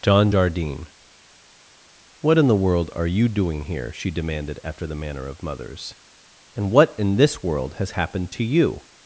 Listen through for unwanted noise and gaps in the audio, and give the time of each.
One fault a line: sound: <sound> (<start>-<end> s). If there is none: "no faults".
no faults